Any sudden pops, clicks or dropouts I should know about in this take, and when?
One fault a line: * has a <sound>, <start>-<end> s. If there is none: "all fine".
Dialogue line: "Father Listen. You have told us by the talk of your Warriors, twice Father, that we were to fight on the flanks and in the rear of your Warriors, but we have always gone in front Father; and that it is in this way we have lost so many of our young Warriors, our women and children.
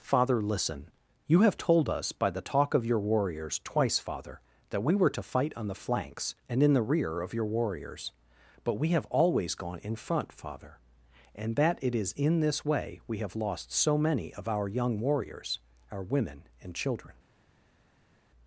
all fine